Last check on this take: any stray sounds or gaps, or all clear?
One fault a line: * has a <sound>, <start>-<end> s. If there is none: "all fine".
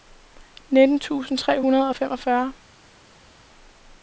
all fine